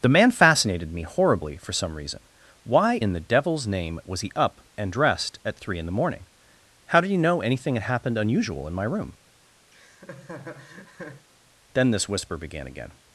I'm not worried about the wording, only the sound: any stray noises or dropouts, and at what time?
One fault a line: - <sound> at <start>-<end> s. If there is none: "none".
- laugh at 9.7-11.3 s